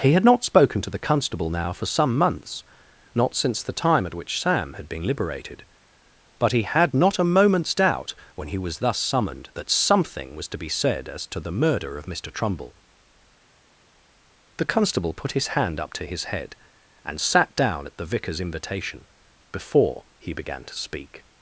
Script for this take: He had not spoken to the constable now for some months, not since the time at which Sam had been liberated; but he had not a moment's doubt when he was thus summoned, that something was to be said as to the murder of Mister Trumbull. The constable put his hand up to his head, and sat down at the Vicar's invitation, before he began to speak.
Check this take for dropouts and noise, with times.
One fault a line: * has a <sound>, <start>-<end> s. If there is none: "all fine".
all fine